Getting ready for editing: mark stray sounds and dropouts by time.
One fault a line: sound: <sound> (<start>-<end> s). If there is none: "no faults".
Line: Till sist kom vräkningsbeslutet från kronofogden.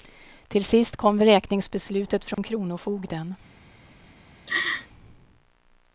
sound: dropout (2.3-2.4 s)
sound: laugh (4.5-4.9 s)